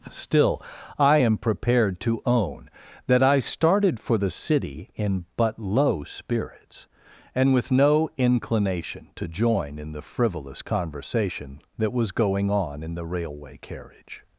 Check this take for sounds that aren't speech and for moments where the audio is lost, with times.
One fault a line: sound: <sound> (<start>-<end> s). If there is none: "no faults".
no faults